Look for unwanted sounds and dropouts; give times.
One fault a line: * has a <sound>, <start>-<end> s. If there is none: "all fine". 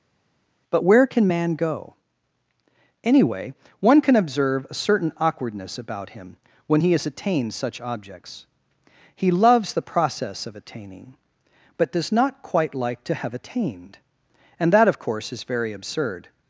all fine